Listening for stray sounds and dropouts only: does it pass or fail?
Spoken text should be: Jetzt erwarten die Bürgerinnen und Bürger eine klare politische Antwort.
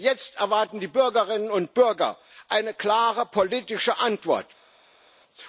pass